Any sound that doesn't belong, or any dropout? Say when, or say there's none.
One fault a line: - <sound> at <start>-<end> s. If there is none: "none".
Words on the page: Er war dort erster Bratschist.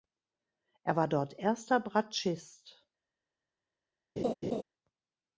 - laugh at 4.2-4.6 s